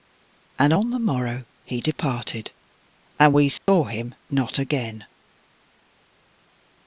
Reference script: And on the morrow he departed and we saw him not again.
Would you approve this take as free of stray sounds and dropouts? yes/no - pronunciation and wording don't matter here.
no